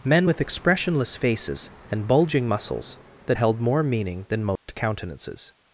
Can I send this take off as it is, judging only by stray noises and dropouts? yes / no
no